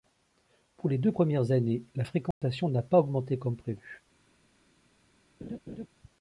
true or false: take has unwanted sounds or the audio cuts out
true